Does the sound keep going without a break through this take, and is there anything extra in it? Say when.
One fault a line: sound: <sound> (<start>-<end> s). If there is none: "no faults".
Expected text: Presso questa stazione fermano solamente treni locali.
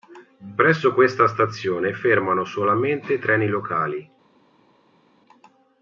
no faults